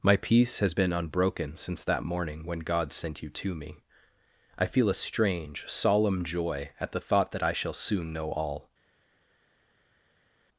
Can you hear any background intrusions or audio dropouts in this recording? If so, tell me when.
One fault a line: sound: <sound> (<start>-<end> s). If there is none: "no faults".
no faults